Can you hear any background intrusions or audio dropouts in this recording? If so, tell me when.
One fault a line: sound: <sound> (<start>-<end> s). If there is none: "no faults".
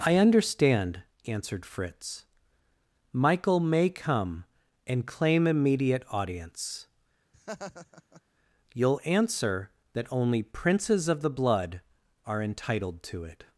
sound: laugh (7.3-8.2 s)